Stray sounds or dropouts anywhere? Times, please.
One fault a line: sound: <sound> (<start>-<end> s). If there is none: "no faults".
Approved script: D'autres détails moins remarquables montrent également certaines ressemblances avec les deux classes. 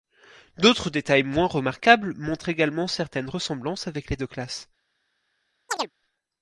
sound: chirp (5.7-5.9 s)